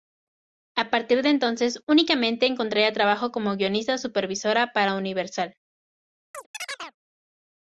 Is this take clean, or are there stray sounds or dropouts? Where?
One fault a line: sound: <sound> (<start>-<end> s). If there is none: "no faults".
sound: chirp (6.3-7.0 s)